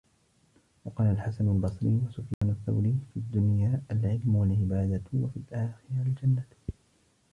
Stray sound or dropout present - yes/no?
yes